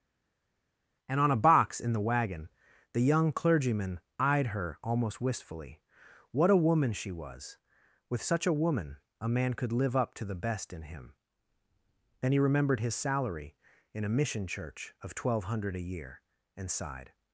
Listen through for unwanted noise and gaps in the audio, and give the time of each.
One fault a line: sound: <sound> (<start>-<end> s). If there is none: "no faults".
no faults